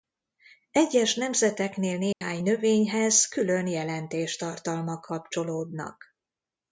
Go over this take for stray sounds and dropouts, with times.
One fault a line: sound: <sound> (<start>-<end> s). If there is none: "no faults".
sound: dropout (2.1-2.2 s)